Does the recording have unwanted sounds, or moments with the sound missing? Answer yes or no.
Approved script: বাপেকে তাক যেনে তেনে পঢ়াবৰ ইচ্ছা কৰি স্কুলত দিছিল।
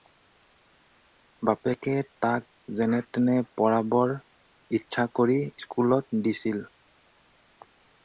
no